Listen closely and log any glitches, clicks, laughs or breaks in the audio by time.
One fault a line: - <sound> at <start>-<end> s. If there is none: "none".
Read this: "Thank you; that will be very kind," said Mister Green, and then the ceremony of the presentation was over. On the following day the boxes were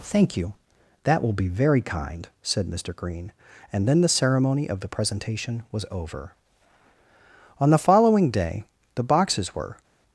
none